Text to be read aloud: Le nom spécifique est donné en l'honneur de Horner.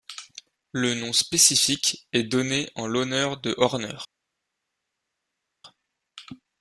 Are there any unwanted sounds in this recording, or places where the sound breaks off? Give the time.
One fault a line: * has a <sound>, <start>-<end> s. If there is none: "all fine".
all fine